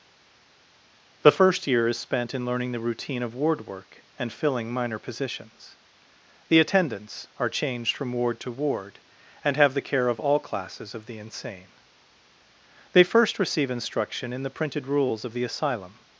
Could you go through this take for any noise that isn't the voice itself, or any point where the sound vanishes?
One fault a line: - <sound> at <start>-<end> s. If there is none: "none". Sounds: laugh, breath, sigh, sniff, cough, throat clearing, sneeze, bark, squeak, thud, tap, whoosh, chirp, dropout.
none